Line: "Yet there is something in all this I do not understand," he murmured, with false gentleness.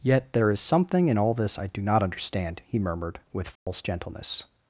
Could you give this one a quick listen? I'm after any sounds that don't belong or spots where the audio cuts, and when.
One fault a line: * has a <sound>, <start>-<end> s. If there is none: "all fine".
* has a dropout, 3.6-3.7 s